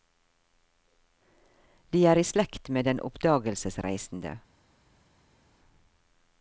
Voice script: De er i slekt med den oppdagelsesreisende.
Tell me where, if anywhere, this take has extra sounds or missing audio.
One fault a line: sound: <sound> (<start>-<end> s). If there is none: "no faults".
no faults